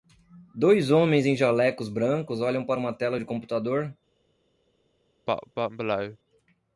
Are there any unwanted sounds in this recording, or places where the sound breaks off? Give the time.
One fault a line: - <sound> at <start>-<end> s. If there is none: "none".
- cough at 5.3-6.2 s